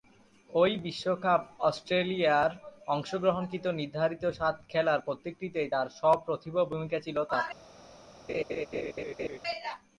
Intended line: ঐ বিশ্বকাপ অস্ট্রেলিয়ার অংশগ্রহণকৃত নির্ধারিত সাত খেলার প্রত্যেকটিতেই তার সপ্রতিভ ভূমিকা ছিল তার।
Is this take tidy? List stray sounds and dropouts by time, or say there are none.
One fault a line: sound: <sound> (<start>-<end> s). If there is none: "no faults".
sound: laugh (8.3-9.4 s)